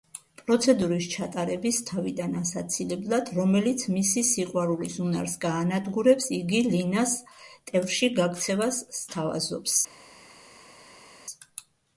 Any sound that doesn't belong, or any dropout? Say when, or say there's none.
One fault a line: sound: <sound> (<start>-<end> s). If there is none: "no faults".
no faults